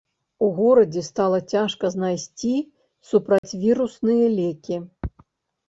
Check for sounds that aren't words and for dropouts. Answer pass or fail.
fail